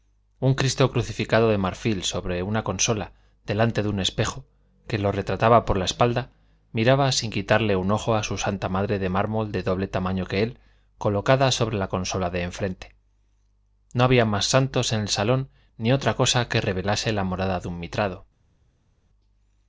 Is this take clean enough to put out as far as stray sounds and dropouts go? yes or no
yes